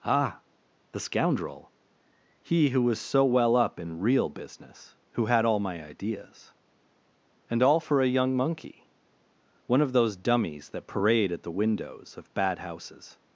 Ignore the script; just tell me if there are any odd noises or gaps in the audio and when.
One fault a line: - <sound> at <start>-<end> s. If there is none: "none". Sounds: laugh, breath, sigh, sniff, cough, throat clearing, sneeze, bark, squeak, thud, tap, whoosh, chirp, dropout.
none